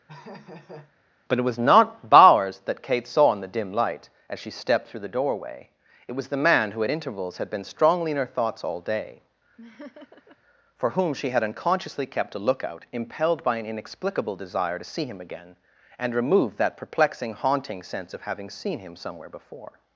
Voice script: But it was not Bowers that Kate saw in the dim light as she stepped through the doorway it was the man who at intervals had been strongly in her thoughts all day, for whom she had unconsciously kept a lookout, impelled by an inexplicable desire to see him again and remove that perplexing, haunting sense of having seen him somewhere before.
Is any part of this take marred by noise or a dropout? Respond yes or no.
yes